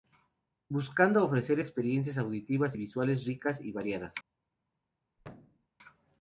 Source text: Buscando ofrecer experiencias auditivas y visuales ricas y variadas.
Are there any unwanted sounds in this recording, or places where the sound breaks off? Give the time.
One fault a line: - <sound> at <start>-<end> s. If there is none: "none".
- thud at 5.2-5.7 s